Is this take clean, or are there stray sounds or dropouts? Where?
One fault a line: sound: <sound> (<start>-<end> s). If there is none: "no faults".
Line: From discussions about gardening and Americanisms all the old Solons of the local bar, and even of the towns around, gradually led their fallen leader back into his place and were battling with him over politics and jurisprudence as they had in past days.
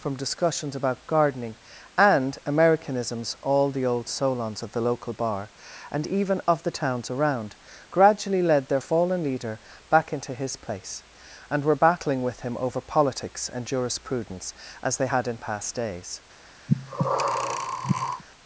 sound: breath (16.7-18.2 s)